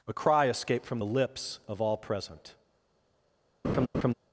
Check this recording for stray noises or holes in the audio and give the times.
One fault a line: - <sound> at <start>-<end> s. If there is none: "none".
- laugh at 3.6-4.1 s